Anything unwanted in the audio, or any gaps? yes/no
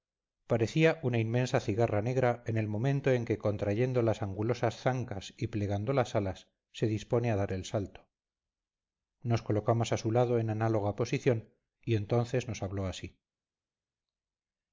no